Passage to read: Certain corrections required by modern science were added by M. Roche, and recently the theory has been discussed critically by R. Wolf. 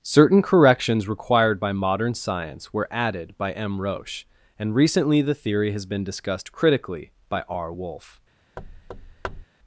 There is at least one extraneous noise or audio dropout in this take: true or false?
true